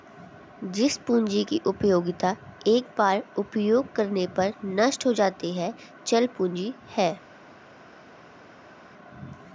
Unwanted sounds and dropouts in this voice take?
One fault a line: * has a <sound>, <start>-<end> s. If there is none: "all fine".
all fine